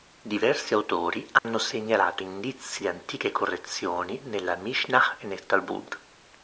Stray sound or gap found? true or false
true